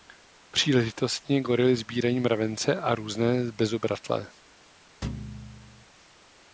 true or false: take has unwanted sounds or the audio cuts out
true